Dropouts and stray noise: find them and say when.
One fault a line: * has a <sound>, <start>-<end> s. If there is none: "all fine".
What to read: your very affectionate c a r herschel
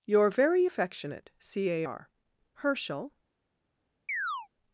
* has a chirp, 4.1-4.5 s